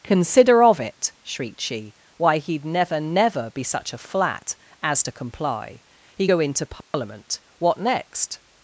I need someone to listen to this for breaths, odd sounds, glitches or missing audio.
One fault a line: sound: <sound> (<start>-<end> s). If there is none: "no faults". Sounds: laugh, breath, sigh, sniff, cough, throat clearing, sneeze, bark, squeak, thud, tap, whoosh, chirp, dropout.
sound: dropout (6.8-6.9 s)